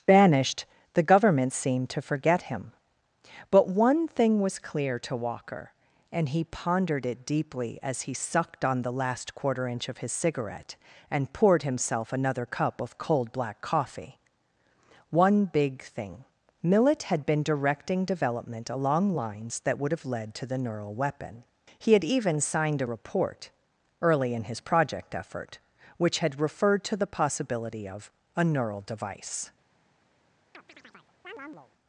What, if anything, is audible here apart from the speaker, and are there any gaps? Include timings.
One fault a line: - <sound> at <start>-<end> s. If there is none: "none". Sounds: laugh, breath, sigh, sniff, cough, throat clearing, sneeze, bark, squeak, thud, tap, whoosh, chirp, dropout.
- chirp at 30.5-31.7 s